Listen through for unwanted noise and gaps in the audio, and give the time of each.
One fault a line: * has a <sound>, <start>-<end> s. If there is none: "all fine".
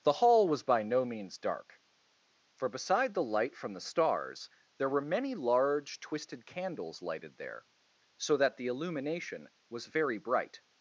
all fine